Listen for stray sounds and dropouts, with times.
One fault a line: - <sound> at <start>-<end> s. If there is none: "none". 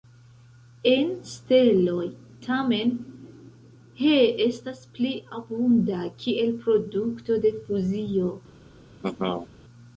- laugh at 9.0-9.5 s